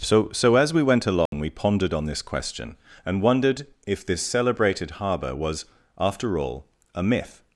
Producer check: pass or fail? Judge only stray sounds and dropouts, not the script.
fail